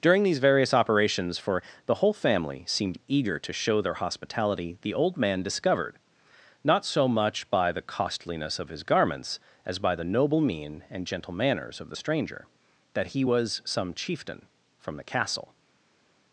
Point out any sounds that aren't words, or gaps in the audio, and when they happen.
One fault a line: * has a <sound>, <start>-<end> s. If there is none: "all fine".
all fine